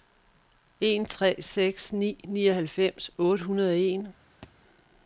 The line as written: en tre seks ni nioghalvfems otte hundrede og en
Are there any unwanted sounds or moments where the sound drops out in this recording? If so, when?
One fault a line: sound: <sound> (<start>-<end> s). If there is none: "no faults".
sound: thud (4.4-4.5 s)